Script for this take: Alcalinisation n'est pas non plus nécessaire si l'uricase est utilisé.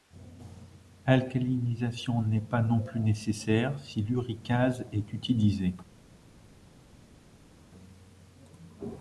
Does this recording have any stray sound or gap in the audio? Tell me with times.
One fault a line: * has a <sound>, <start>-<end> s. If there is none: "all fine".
all fine